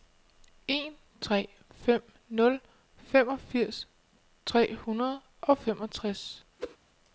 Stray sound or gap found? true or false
true